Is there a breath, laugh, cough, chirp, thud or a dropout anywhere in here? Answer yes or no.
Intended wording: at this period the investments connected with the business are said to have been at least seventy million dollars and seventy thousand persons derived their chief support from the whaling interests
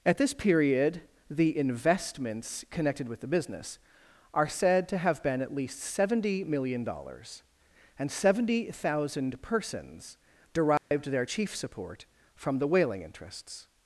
yes